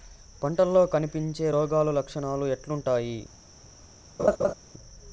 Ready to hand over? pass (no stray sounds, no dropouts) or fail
fail